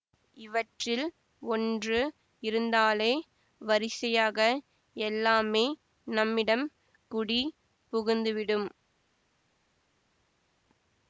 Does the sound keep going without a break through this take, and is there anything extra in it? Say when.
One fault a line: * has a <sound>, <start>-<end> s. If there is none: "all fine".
all fine